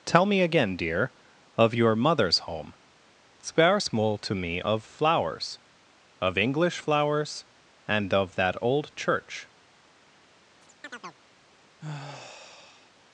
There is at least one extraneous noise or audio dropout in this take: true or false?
true